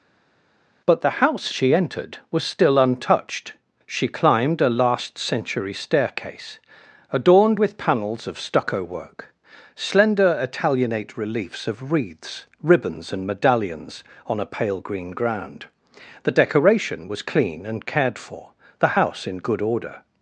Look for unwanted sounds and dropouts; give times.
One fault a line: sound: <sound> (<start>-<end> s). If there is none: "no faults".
no faults